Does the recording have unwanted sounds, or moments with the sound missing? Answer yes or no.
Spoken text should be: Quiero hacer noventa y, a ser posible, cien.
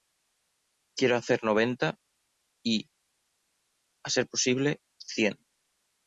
no